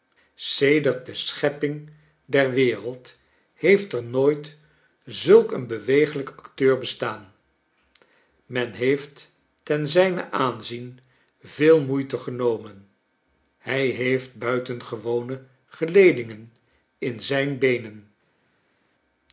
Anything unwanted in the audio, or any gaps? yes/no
no